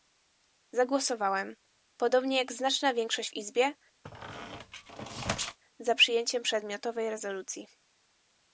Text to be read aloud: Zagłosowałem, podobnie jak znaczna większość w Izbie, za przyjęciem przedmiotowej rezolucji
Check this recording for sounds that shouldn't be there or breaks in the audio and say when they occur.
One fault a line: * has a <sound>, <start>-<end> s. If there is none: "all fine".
* has a squeak, 4.0-5.6 s